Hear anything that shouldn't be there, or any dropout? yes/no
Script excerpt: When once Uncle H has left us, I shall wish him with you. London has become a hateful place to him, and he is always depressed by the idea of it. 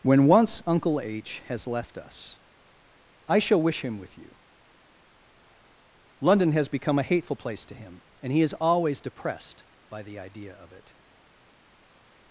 no